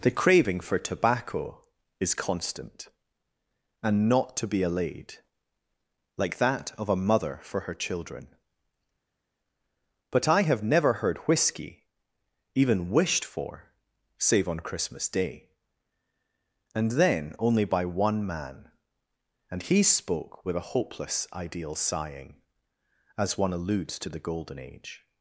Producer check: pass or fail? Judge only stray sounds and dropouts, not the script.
pass